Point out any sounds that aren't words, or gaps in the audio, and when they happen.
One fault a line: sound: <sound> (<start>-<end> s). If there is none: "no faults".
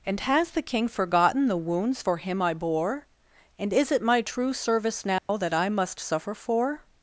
sound: dropout (5.2-5.3 s)